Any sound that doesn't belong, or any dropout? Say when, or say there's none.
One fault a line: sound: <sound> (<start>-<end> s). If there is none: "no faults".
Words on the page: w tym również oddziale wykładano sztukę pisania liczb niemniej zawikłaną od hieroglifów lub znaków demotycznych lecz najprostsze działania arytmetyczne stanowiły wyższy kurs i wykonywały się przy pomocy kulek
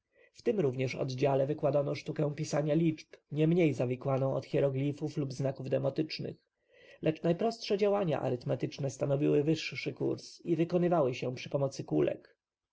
no faults